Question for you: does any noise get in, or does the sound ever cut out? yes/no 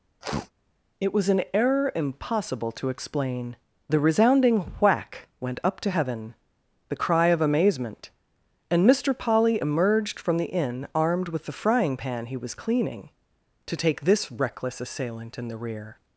yes